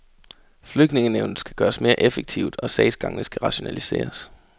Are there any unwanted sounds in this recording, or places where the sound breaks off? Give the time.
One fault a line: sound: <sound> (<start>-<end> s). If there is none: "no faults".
no faults